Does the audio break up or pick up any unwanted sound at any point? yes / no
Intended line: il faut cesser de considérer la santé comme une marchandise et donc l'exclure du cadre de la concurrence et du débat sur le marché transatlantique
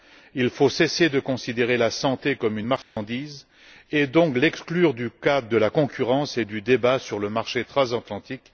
yes